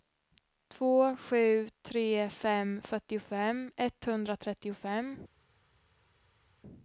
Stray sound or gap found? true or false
false